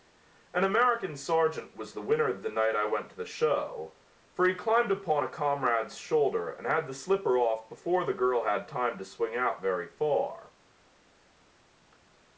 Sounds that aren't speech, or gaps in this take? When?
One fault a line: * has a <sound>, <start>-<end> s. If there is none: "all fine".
all fine